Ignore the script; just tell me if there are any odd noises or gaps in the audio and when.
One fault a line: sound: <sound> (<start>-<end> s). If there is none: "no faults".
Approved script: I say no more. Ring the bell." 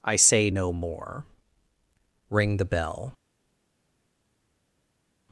no faults